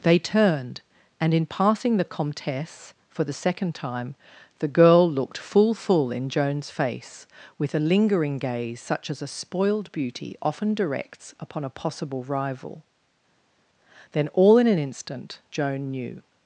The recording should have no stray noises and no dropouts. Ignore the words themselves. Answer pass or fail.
pass